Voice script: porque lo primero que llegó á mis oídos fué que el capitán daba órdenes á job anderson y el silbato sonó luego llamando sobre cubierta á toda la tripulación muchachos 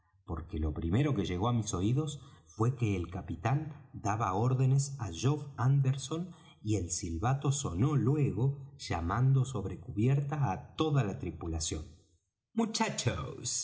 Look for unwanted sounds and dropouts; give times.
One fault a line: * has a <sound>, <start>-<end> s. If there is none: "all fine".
all fine